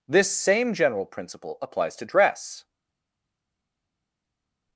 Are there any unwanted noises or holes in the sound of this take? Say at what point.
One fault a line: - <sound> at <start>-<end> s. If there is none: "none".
none